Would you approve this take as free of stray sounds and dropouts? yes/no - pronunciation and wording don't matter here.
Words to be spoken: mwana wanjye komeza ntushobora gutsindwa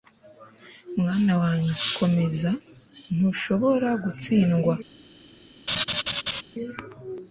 no